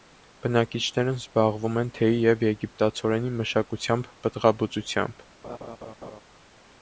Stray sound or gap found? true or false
true